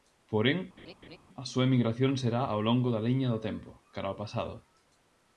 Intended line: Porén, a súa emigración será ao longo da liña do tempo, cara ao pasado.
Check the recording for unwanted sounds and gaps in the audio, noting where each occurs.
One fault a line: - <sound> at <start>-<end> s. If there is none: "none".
- laugh at 0.8-1.2 s